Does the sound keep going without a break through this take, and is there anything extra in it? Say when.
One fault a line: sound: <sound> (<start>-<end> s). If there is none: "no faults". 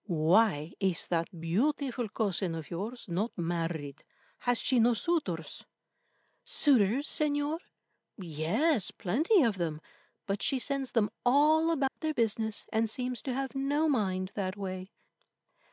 sound: dropout (11.9-12.0 s)